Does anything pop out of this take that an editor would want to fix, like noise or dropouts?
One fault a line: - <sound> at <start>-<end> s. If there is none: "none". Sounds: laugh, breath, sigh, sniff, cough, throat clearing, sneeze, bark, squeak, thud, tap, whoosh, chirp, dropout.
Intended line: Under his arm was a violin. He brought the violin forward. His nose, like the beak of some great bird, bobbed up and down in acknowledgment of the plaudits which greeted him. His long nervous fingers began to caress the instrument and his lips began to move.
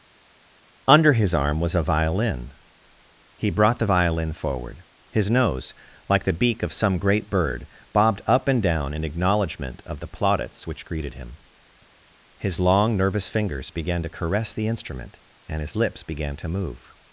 none